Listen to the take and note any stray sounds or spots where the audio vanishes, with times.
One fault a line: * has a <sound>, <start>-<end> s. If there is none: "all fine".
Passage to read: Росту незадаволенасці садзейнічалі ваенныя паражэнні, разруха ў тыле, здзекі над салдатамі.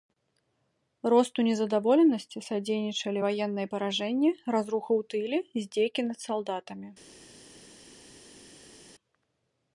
all fine